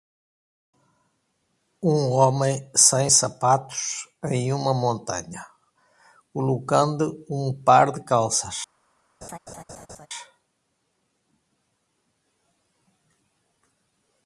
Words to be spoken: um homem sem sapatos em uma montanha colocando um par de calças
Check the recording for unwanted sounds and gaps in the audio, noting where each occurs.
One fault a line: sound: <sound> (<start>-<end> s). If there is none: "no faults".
sound: laugh (9.2-10.1 s)